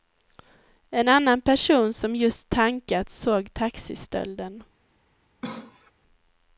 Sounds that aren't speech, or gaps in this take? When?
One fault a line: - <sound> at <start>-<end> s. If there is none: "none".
- cough at 5.4-5.9 s